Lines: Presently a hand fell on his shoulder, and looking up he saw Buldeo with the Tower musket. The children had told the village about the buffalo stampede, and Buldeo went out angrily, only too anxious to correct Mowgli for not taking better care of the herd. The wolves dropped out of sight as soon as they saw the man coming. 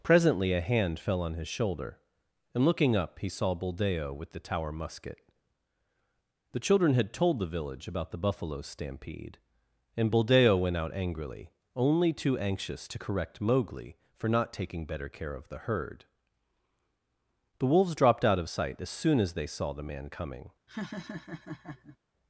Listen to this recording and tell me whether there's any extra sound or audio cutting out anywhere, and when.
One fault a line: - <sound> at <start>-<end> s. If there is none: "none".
- laugh at 20.7-22.0 s